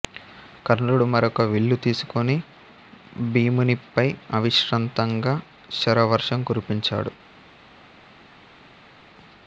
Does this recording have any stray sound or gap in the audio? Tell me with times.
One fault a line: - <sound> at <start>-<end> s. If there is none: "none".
none